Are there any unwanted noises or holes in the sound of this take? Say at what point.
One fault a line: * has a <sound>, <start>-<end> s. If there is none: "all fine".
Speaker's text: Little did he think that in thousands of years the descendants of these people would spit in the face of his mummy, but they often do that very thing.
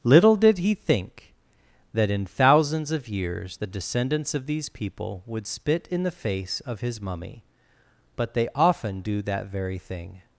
all fine